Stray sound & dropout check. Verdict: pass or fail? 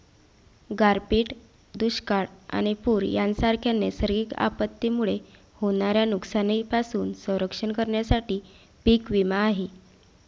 pass